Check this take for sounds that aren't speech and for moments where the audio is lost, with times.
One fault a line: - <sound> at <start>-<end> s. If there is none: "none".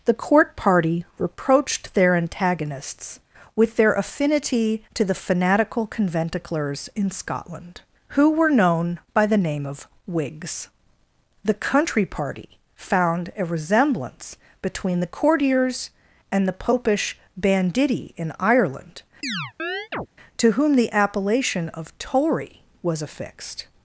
- chirp at 19.2-20.1 s